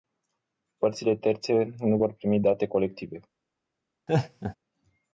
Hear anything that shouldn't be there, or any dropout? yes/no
yes